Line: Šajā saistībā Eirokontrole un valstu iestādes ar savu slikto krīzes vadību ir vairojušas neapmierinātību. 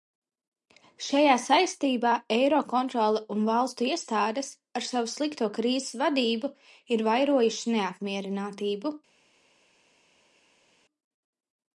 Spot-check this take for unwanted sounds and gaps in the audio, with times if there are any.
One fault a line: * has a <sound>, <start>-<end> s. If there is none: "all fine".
all fine